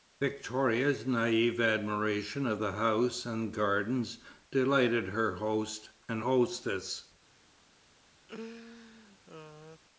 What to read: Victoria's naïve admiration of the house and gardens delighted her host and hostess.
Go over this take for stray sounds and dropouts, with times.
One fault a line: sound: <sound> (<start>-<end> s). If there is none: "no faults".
sound: laugh (8.3-9.8 s)